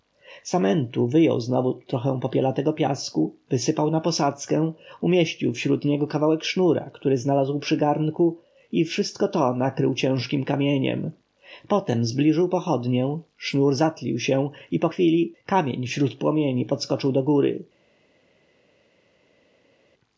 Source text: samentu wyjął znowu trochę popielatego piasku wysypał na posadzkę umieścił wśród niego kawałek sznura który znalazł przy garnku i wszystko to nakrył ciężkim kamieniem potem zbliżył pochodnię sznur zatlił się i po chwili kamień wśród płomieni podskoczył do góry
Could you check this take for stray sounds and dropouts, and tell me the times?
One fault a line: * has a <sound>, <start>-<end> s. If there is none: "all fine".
all fine